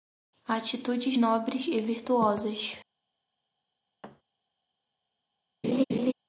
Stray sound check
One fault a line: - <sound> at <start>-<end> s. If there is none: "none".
- thud at 4.0-4.2 s
- laugh at 5.6-6.1 s